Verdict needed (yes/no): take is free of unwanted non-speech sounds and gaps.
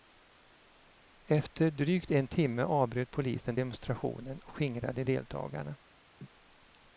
no